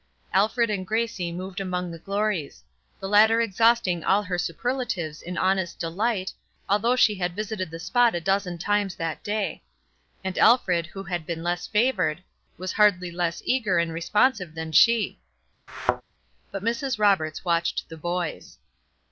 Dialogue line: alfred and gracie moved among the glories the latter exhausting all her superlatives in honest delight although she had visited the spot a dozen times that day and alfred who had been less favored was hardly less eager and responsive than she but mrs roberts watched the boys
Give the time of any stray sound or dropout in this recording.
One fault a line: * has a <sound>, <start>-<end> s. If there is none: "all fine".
* has a thud, 15.7-16.0 s